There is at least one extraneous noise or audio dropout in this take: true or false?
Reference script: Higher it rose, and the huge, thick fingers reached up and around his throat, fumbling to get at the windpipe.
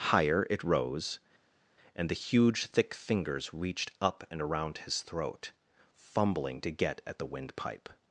false